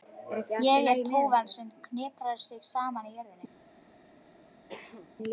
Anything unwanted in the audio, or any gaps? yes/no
yes